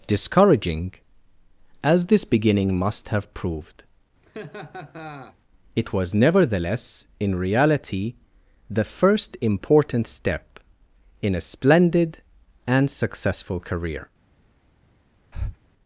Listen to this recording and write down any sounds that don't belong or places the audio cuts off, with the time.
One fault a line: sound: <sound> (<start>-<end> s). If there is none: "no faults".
sound: laugh (4.2-5.4 s)
sound: breath (15.3-15.6 s)